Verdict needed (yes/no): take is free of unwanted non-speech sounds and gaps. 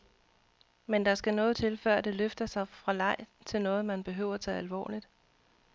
yes